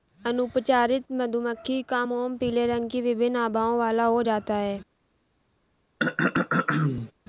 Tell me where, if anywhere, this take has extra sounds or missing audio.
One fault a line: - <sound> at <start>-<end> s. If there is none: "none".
- throat clearing at 6.0-7.1 s